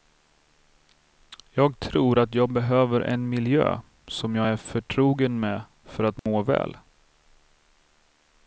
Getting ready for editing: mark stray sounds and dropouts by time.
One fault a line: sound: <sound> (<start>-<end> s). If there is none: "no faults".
sound: dropout (6.2-6.3 s)